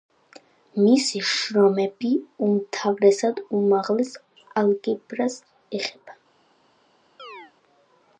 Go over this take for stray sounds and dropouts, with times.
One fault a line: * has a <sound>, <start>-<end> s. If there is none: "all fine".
* has a chirp, 7.2-7.5 s